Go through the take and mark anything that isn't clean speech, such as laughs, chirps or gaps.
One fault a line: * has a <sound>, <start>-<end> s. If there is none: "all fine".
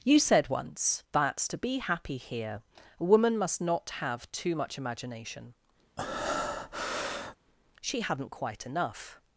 * has a breath, 6.0-7.4 s